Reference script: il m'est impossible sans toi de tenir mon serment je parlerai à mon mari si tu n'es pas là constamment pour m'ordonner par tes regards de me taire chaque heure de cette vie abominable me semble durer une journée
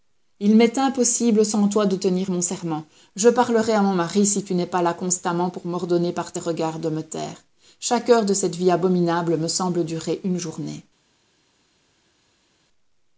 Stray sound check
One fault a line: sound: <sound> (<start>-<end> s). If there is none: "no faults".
no faults